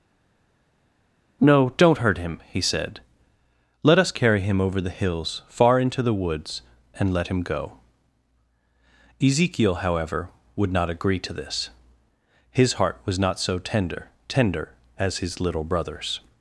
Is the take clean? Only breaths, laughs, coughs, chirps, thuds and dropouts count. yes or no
yes